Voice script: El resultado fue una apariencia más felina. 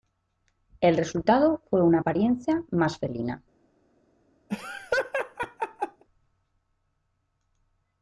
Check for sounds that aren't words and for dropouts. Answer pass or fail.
fail